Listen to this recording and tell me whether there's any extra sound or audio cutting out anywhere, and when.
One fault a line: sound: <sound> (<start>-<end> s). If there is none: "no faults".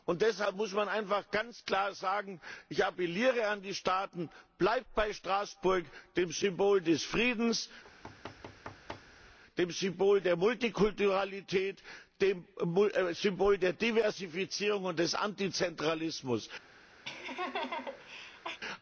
sound: thud (7.8-9.4 s)
sound: laugh (17.1-18.6 s)